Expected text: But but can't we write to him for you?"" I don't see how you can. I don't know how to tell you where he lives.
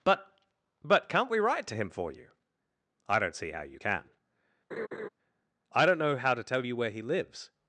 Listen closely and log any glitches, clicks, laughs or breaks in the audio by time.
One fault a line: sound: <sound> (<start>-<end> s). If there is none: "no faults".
sound: laugh (4.7-5.1 s)